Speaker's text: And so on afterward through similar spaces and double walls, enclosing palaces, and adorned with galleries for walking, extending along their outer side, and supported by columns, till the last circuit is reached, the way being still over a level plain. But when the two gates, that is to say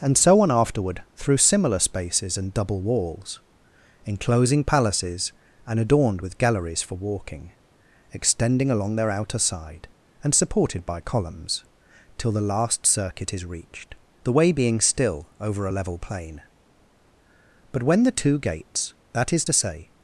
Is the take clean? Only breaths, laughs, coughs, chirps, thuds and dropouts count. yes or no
yes